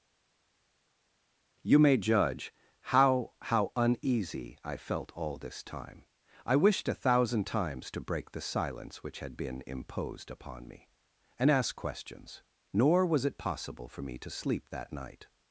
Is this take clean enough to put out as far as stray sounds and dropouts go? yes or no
yes